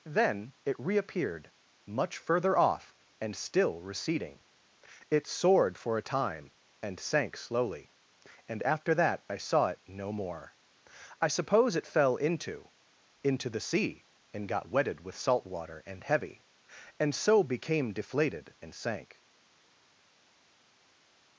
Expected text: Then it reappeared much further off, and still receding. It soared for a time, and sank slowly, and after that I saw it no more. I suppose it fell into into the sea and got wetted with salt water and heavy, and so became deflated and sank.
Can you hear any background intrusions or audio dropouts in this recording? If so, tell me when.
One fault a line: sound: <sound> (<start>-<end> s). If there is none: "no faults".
no faults